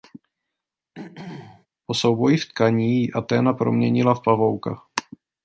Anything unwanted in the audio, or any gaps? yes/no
yes